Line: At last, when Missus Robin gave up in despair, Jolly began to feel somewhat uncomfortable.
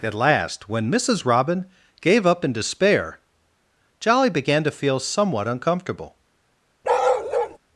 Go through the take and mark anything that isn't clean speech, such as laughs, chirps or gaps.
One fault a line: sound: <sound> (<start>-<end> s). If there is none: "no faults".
sound: bark (6.8-7.6 s)